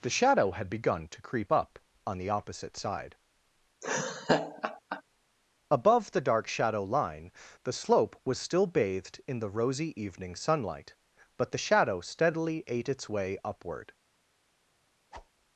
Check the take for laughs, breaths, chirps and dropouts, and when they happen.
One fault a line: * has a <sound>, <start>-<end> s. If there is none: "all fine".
* has a laugh, 3.8-5.0 s
* has a whoosh, 15.1-15.3 s